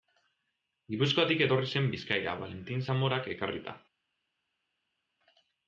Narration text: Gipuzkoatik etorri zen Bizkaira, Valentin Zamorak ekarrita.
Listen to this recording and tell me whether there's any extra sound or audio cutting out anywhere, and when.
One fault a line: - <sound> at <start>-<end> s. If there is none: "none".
none